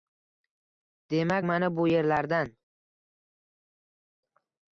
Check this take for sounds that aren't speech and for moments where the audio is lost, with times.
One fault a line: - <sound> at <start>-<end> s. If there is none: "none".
none